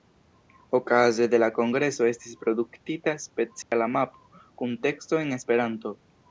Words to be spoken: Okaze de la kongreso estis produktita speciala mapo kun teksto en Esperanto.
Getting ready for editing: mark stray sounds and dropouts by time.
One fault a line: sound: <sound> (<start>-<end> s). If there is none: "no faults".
sound: dropout (3.6-3.7 s)